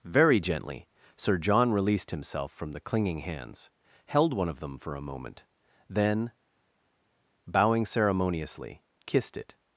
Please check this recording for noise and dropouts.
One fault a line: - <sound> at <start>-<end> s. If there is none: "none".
none